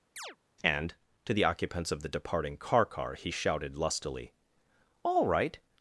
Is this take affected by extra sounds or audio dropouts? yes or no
yes